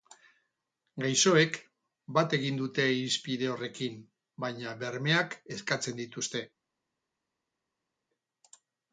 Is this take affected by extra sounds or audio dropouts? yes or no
no